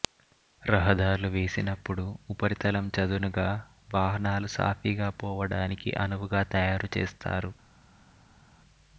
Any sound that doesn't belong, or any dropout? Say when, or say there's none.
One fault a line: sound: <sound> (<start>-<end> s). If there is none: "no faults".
no faults